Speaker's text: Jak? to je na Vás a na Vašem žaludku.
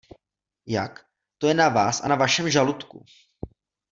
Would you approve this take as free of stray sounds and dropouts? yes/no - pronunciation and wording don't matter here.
yes